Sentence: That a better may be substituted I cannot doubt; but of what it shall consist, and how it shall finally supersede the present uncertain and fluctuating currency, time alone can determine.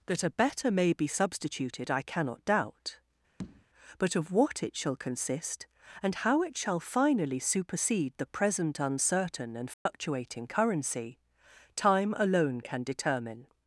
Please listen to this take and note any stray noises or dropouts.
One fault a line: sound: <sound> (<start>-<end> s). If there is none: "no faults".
sound: tap (3.4-3.7 s)
sound: dropout (9.7-9.9 s)